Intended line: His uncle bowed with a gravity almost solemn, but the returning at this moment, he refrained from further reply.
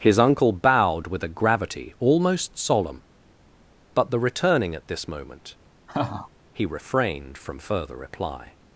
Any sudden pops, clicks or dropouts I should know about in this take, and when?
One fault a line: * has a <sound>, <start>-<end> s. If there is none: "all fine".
* has a laugh, 5.9-6.3 s